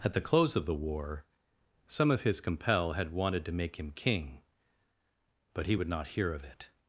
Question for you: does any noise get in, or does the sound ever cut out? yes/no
no